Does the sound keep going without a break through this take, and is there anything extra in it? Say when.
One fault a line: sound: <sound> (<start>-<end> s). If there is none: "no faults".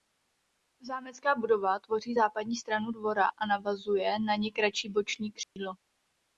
sound: dropout (5.4-5.6 s)